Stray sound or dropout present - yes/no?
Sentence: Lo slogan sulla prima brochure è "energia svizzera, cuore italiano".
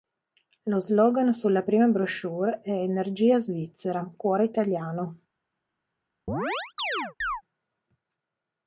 yes